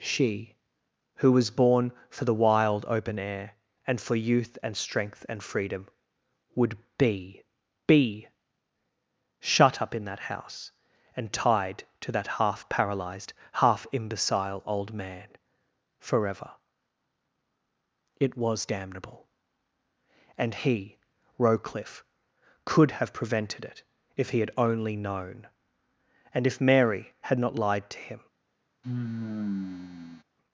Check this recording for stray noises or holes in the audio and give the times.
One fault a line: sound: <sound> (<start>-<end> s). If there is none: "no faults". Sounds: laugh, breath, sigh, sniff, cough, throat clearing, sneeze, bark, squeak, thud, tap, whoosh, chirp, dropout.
sound: sigh (28.8-30.2 s)